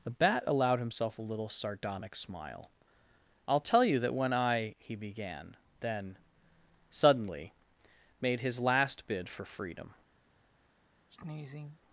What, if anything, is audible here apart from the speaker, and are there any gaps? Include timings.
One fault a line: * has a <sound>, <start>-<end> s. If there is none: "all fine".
* has a sneeze, 11.1-11.8 s